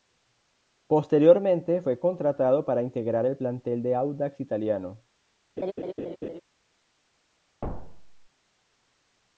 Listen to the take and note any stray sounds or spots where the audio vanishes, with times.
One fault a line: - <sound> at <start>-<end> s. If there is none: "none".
- laugh at 5.6-6.4 s
- thud at 7.6-8.3 s